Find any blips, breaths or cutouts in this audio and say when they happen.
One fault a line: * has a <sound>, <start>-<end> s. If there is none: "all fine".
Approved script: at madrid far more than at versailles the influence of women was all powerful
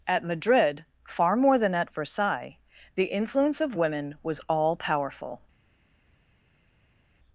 all fine